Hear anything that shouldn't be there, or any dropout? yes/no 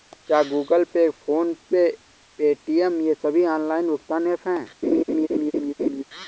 yes